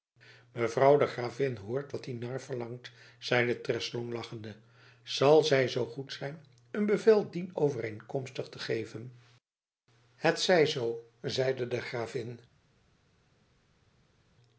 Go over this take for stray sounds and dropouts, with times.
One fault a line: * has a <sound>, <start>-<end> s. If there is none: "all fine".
all fine